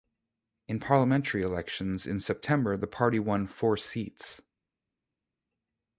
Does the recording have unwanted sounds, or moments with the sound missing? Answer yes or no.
no